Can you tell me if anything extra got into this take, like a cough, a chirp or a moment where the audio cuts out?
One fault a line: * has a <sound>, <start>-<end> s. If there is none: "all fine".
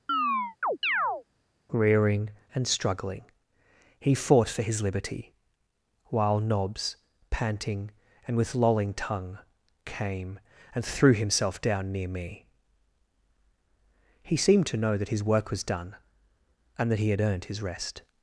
* has a chirp, 0.1-1.2 s